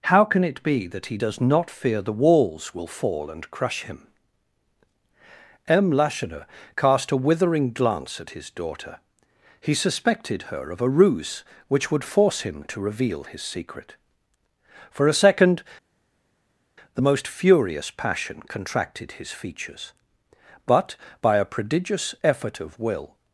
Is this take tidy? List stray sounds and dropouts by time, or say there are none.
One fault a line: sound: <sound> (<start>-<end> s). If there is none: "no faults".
no faults